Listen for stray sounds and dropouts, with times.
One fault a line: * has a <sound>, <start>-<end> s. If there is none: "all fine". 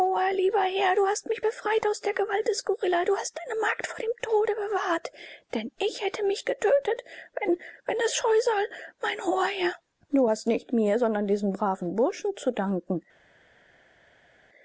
all fine